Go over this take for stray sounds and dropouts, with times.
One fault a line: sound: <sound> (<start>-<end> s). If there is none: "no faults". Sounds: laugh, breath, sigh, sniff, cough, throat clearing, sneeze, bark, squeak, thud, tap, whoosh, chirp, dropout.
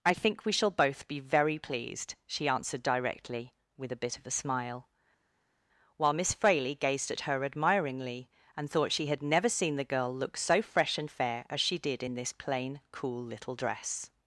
no faults